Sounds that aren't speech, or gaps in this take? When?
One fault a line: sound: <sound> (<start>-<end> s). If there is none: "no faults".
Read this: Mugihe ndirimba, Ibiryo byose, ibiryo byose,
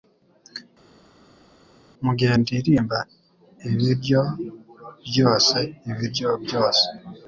no faults